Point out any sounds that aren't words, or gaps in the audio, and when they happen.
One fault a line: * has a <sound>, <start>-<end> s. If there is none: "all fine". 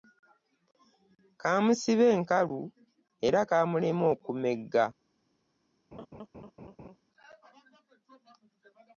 * has a laugh, 5.9-7.0 s